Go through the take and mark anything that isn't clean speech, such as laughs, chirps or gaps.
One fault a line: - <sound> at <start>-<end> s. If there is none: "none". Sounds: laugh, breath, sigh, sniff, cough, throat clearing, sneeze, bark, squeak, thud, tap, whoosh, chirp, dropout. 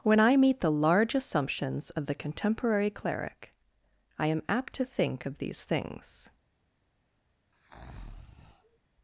- breath at 7.5-8.8 s